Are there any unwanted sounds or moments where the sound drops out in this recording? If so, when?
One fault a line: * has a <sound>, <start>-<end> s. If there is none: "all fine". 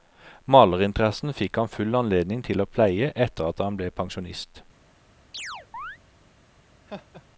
* has a chirp, 5.3-6.0 s
* has a laugh, 6.9-7.3 s